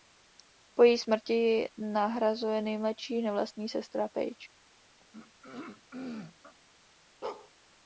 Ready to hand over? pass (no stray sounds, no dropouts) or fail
fail